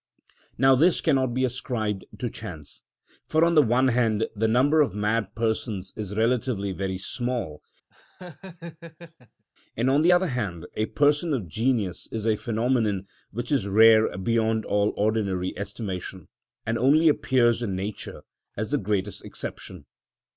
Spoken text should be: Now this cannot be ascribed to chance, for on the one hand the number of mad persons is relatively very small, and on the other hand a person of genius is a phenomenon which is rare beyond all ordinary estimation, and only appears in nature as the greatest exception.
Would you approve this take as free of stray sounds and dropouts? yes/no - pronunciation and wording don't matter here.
no